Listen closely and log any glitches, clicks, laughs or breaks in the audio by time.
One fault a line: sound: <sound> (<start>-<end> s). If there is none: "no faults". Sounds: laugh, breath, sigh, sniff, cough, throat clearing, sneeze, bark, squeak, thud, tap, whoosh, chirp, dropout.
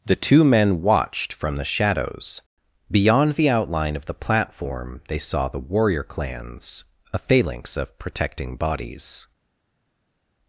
no faults